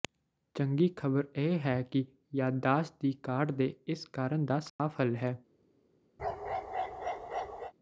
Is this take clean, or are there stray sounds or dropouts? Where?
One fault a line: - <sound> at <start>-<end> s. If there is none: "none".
- dropout at 4.7-4.8 s
- bark at 6.2-7.7 s